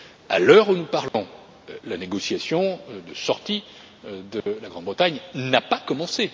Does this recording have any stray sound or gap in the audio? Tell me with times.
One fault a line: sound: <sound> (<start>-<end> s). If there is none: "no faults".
sound: dropout (1.1-1.1 s)
sound: dropout (4.4-4.5 s)